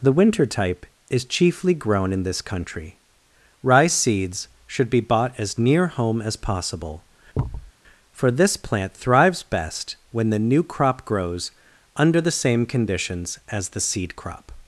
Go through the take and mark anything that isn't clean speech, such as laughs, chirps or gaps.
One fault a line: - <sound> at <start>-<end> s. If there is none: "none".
- thud at 7.3-7.7 s